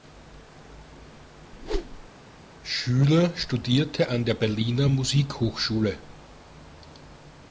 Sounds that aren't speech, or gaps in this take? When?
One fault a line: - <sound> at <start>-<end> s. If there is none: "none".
- whoosh at 1.5-2.1 s